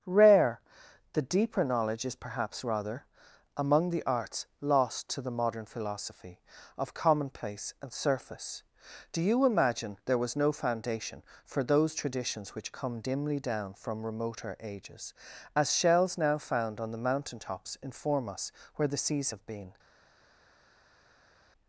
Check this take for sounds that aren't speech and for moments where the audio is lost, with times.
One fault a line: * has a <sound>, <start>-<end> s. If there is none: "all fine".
all fine